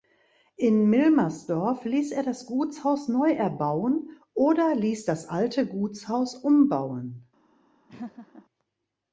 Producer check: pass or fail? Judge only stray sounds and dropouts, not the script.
fail